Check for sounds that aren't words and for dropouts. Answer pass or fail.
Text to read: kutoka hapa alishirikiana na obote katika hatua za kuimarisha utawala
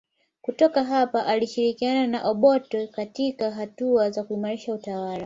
pass